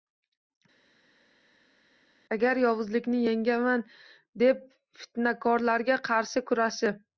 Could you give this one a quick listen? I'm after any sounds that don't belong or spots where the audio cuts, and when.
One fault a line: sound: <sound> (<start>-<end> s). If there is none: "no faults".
no faults